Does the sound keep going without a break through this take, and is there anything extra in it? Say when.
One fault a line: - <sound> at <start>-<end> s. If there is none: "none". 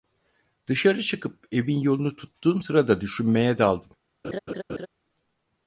- laugh at 4.2-4.9 s